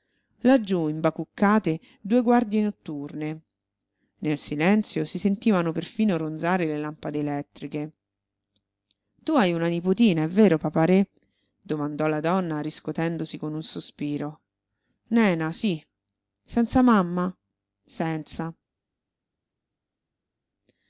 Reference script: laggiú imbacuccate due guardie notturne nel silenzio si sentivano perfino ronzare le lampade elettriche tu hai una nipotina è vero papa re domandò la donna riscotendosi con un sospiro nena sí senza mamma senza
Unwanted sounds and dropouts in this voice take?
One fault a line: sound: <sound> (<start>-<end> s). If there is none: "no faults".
no faults